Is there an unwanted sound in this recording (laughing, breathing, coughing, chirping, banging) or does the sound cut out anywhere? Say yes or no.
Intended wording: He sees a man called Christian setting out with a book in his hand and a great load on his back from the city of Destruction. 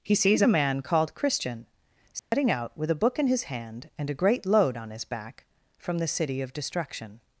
yes